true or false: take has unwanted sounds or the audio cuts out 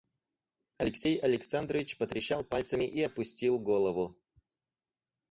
false